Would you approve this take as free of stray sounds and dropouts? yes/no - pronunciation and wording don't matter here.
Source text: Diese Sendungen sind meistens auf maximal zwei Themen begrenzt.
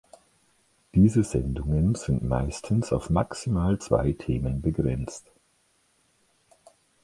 yes